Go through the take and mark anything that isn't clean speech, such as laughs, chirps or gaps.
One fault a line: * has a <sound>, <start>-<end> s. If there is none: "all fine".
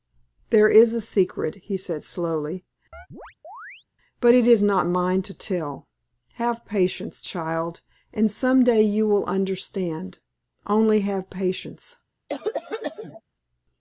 * has a chirp, 2.9-3.9 s
* has a cough, 12.3-13.2 s